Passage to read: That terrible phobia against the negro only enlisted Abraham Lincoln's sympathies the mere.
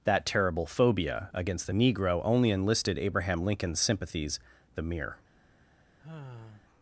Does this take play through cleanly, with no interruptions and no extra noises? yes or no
no